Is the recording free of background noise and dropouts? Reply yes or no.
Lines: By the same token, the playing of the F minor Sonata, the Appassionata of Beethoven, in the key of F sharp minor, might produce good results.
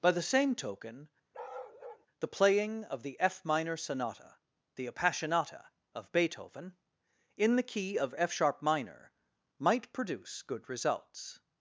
no